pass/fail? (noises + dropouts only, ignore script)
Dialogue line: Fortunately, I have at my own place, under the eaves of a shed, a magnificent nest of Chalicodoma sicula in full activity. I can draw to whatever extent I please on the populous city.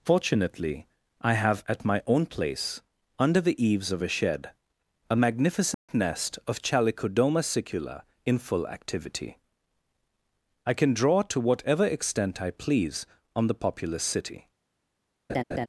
fail